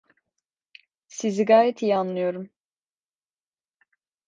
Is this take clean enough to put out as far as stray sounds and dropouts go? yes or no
yes